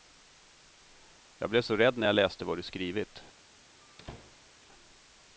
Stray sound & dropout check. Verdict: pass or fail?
fail